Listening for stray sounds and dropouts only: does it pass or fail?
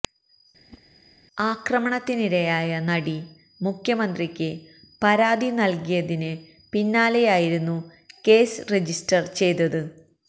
fail